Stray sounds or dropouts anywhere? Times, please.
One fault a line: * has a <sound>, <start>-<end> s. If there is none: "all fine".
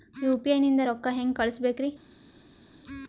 all fine